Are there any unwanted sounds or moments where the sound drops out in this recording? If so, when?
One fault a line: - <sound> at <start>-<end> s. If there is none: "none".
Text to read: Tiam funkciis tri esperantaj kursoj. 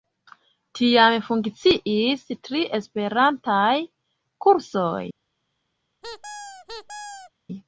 - squeak at 6.0-7.3 s